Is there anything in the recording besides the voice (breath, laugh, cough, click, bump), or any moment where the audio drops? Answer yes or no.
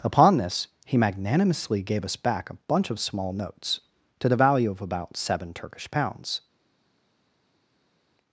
no